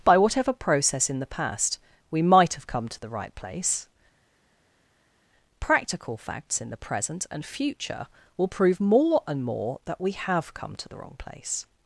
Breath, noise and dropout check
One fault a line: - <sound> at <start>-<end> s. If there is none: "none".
none